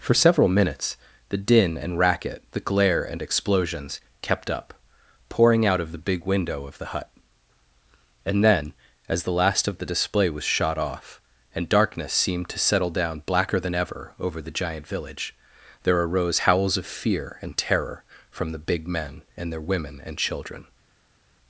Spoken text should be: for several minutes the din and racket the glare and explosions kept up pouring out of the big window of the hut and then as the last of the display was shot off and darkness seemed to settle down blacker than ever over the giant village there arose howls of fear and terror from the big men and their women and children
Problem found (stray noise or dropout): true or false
false